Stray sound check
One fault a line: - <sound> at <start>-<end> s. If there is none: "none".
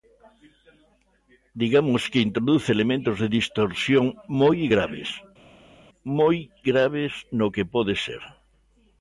none